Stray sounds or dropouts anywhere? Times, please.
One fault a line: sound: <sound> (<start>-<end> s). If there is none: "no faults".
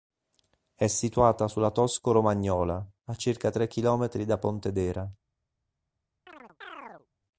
sound: chirp (6.3-7.1 s)